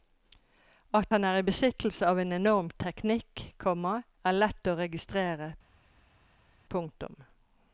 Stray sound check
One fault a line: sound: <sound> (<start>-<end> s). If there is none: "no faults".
no faults